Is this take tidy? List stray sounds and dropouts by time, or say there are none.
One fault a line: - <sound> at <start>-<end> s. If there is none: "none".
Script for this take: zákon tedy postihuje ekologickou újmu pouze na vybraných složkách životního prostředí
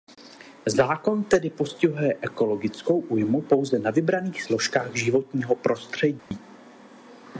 - dropout at 6.2-6.3 s